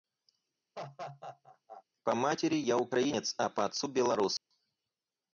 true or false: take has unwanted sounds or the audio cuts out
true